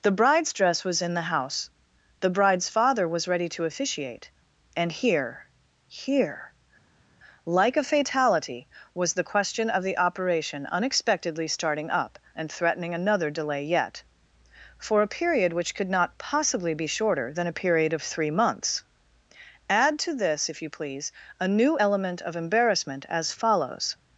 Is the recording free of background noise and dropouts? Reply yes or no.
yes